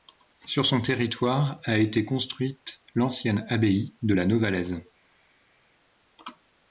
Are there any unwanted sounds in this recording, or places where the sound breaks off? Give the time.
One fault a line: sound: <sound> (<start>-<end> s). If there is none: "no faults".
no faults